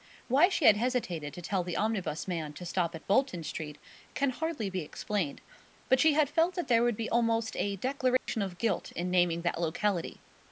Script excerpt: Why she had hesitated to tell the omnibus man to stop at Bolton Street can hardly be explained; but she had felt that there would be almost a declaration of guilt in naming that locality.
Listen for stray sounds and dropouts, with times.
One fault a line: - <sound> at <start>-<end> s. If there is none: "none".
- dropout at 8.2-8.3 s